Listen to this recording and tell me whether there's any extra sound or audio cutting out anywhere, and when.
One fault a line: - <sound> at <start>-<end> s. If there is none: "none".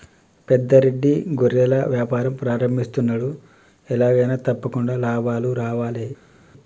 none